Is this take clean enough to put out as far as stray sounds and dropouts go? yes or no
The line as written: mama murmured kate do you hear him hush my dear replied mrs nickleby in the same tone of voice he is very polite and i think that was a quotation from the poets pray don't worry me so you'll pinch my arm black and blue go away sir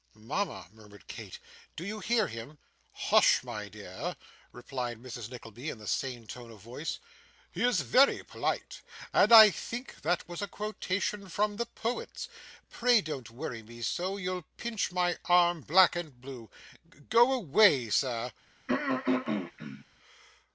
no